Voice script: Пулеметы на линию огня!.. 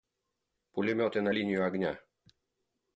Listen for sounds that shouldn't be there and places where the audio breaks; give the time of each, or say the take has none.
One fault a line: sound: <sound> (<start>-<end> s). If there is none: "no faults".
no faults